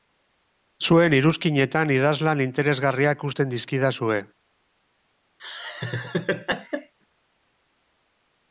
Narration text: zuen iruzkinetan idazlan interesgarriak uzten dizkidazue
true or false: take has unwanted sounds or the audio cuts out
true